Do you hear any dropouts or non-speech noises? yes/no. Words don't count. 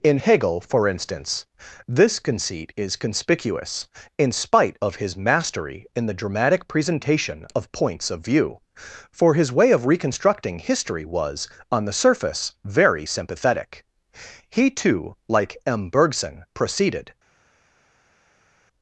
no